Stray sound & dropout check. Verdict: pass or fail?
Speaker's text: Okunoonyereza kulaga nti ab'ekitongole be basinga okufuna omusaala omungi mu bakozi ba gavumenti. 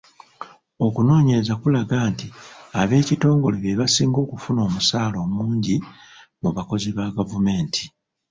pass